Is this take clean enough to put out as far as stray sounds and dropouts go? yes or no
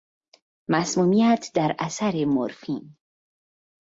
yes